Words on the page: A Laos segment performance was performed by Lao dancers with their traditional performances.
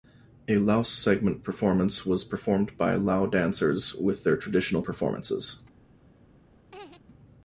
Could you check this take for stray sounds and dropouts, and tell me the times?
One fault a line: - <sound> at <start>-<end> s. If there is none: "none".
- laugh at 6.7-7.0 s